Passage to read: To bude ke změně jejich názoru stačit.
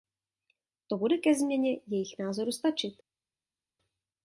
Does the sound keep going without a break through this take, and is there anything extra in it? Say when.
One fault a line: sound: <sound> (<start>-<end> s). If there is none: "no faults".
no faults